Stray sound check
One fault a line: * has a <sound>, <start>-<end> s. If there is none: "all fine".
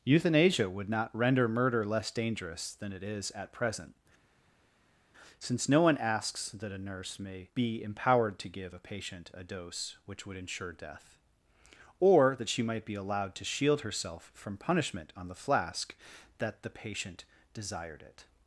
all fine